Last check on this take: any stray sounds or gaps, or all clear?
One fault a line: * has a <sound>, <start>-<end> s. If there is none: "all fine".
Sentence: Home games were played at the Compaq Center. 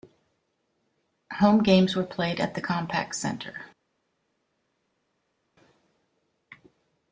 all fine